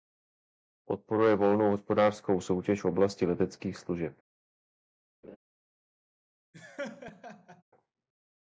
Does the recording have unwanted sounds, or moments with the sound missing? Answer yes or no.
yes